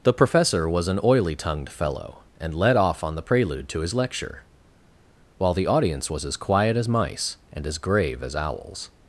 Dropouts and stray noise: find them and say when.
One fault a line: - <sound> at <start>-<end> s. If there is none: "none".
none